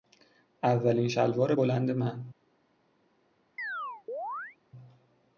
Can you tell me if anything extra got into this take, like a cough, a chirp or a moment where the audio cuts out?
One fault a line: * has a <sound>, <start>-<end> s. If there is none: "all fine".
* has a chirp, 3.6-4.6 s